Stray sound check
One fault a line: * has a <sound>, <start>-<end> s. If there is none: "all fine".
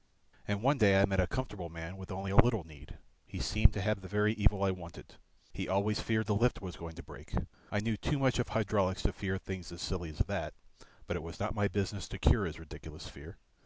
all fine